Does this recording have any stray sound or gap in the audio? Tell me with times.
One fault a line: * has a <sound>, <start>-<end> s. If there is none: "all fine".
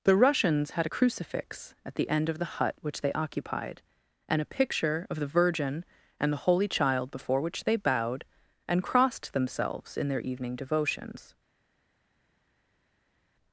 all fine